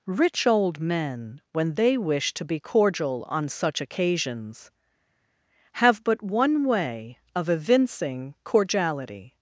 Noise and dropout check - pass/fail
pass